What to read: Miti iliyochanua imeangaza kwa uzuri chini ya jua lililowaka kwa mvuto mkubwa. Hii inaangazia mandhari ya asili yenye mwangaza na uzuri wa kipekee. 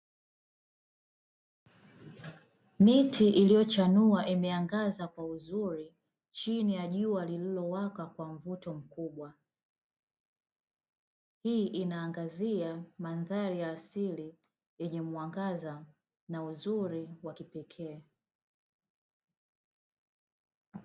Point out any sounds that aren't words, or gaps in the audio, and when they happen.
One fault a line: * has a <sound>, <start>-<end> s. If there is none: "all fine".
all fine